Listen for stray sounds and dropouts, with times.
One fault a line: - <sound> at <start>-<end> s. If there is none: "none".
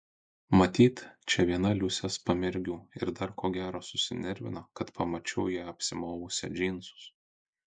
none